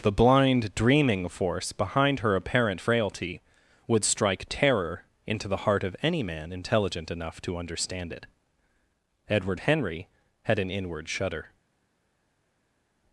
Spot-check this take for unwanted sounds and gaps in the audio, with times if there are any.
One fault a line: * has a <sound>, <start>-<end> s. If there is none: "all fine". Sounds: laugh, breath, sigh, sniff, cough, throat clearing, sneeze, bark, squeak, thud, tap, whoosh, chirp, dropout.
all fine